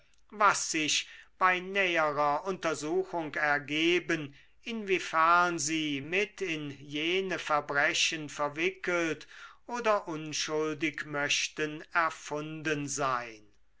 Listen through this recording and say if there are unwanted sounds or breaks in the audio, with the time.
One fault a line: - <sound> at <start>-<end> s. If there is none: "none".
none